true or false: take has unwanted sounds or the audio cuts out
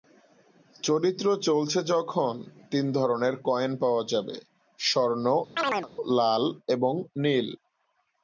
true